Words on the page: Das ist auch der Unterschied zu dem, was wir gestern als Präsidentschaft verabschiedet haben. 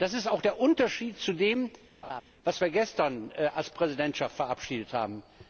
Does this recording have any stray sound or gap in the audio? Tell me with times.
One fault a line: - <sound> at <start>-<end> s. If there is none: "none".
- laugh at 2.0-2.2 s